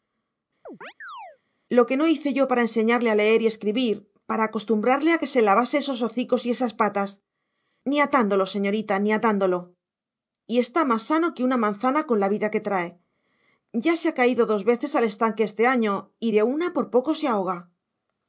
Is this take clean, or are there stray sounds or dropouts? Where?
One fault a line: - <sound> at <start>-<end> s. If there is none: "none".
- chirp at 0.7-1.4 s